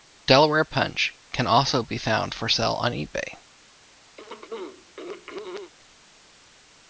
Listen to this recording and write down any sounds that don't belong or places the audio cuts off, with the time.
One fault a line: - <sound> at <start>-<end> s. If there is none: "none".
- throat clearing at 4.2-5.7 s